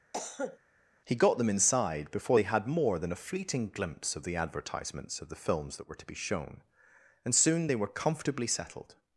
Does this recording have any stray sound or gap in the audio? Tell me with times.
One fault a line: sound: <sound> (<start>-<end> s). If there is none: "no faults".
sound: cough (0.1-0.6 s)